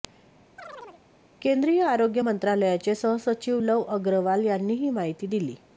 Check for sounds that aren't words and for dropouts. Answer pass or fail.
fail